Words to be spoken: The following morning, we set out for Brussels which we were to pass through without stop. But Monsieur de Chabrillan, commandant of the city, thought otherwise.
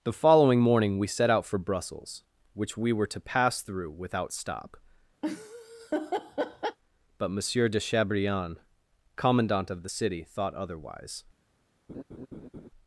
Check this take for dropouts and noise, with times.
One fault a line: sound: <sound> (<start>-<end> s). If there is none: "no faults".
sound: laugh (5.2-6.8 s)
sound: laugh (11.9-12.7 s)